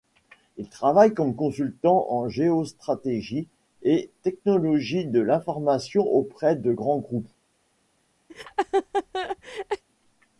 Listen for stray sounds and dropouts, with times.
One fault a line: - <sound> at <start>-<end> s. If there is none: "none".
- laugh at 8.3-9.8 s